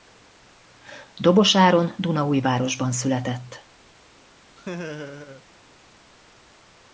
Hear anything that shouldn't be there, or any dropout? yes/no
yes